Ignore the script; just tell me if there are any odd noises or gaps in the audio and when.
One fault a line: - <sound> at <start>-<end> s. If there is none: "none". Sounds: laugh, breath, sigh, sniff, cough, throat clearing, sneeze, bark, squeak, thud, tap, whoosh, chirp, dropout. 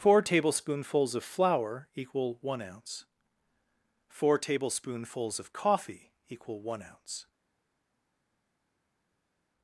none